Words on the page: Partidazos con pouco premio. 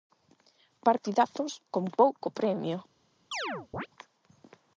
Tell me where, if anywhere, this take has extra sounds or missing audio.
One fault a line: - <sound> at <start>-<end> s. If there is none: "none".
- chirp at 3.3-3.9 s